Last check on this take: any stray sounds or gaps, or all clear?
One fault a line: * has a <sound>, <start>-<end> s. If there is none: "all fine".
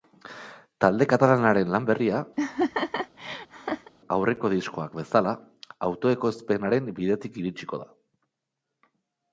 * has a laugh, 2.4-3.9 s